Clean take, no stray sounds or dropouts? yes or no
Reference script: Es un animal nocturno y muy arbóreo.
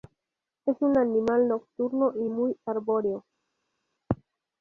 yes